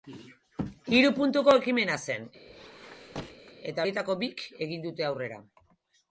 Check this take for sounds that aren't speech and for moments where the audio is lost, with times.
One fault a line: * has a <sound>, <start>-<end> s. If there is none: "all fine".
* has a squeak, 2.5-3.5 s